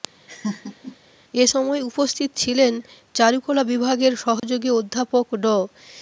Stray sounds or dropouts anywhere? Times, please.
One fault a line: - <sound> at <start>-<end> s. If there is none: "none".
- laugh at 0.3-1.0 s
- dropout at 4.4-4.4 s